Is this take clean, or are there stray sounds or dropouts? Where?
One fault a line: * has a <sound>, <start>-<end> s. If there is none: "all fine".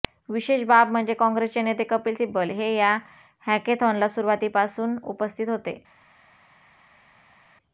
all fine